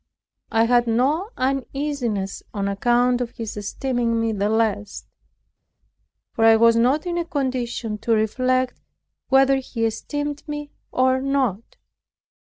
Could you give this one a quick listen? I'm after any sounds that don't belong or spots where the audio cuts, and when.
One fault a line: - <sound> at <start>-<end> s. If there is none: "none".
none